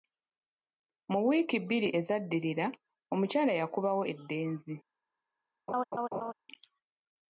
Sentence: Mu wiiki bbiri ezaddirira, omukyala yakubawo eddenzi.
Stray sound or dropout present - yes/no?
yes